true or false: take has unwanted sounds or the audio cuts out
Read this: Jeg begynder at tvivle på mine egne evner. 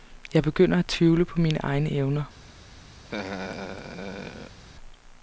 true